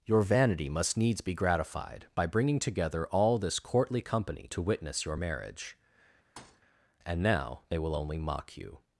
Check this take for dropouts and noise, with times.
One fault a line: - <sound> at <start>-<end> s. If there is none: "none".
- thud at 6.4-6.6 s